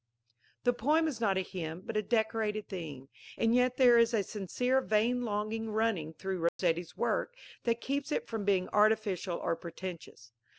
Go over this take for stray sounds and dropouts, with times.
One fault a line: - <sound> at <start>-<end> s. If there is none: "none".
- dropout at 6.5-6.6 s